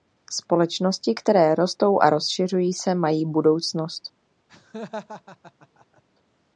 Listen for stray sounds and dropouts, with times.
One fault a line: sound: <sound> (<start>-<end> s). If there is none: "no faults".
sound: laugh (4.5-6.0 s)